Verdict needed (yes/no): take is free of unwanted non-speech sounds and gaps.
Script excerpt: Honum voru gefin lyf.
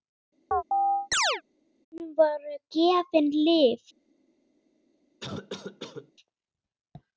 no